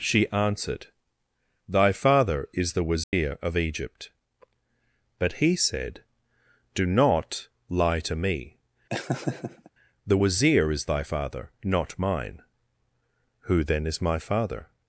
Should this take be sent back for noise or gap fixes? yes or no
yes